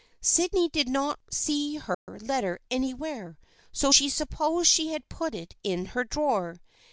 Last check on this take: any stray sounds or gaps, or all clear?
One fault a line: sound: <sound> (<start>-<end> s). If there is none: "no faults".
sound: dropout (1.9-2.1 s)